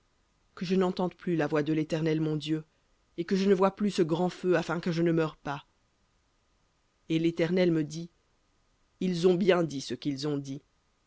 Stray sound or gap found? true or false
false